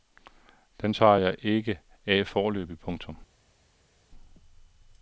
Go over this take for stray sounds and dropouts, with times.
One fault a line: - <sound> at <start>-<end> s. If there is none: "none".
none